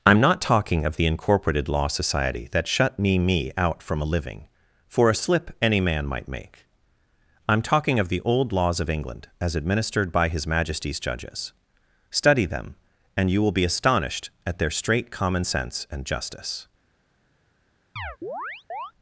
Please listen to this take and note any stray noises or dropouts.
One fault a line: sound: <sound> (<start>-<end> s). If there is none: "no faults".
sound: chirp (18.0-18.9 s)